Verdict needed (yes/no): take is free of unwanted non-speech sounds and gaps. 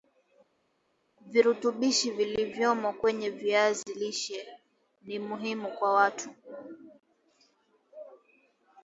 yes